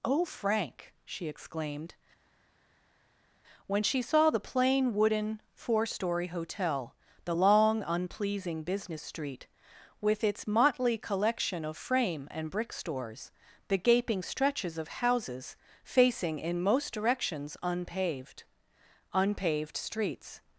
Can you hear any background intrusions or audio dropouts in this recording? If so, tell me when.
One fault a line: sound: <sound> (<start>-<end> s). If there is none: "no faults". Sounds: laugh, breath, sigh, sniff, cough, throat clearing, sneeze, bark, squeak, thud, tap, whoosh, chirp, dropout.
no faults